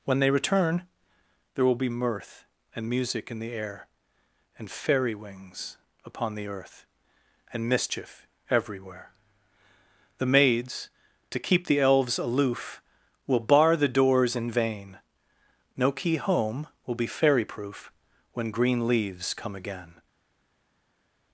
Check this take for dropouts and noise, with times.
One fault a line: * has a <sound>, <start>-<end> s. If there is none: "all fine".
all fine